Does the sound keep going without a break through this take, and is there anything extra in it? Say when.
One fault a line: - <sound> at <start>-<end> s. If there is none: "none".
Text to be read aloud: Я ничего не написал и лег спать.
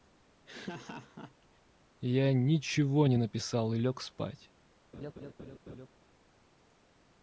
- laugh at 0.5-1.6 s
- laugh at 4.9-5.9 s